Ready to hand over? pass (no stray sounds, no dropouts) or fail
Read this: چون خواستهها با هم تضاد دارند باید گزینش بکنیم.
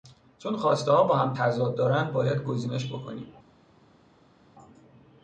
pass